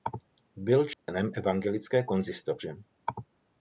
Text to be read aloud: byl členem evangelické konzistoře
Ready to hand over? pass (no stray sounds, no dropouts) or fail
fail